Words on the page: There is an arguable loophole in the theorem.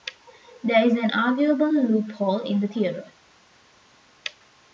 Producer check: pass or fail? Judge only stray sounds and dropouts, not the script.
pass